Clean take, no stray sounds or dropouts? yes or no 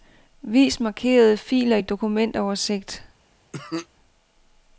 no